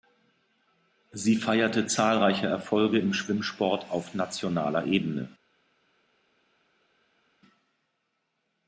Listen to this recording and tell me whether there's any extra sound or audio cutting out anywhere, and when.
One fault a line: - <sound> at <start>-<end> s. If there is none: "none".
none